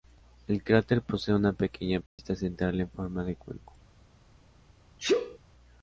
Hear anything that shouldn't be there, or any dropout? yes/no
yes